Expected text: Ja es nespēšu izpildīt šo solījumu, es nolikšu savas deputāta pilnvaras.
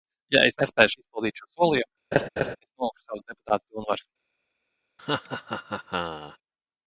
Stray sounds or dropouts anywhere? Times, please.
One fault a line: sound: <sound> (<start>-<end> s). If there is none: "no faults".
sound: laugh (2.1-2.6 s)
sound: laugh (5.0-6.4 s)